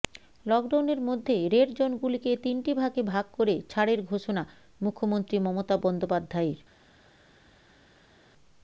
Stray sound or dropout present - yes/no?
no